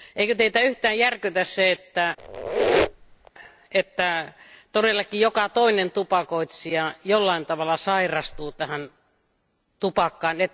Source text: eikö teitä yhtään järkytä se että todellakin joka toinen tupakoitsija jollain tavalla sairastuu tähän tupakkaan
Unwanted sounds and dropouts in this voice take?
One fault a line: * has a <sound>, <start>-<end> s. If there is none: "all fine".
* has a squeak, 2.2-3.3 s